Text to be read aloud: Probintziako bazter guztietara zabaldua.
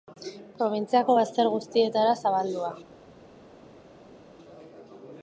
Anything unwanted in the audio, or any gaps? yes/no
no